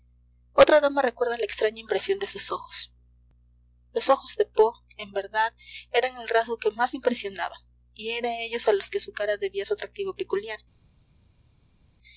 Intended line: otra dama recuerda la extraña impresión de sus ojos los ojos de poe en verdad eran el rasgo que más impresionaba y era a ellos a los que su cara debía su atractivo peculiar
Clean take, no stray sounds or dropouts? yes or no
yes